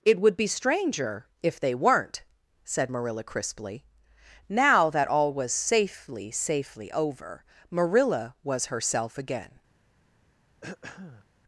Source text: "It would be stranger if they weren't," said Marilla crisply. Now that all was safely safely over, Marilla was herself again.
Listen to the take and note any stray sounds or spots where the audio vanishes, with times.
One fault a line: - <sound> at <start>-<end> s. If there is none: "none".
- throat clearing at 10.6-11.3 s